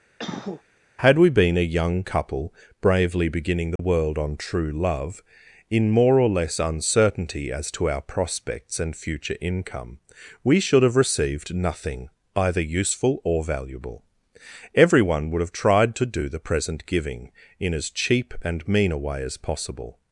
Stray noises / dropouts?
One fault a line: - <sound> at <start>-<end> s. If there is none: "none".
- cough at 0.2-0.6 s
- dropout at 3.8-3.8 s